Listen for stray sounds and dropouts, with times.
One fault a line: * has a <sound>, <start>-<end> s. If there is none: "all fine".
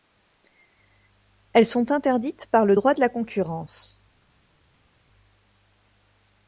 all fine